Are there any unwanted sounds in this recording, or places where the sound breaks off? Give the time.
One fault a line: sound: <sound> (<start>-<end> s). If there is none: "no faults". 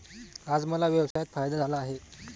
sound: dropout (1.1-1.2 s)